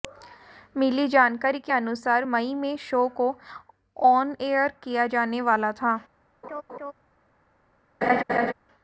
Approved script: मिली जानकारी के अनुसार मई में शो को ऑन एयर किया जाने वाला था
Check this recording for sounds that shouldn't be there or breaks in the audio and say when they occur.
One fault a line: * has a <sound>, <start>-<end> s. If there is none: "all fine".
* has a laugh, 6.4-6.9 s
* has a laugh, 8.0-8.5 s